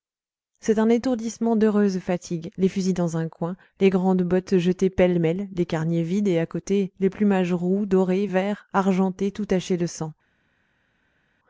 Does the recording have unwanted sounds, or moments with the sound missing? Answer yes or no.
no